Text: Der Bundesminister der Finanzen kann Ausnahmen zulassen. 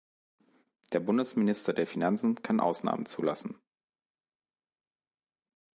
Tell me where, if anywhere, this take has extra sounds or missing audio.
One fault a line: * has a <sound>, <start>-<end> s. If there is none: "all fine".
all fine